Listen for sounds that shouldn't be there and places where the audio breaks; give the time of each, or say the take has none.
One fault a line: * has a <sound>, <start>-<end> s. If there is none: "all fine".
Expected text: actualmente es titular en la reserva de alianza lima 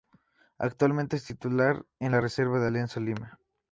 all fine